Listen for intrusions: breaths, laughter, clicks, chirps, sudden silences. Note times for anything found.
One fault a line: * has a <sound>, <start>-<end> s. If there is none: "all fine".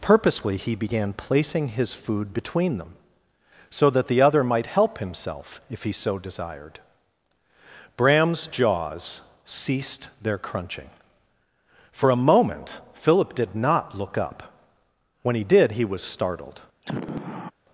* has a sigh, 16.8-17.5 s